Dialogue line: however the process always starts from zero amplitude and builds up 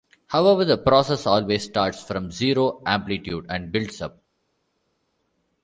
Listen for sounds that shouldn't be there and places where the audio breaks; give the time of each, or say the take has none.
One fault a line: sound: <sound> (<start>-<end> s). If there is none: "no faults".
no faults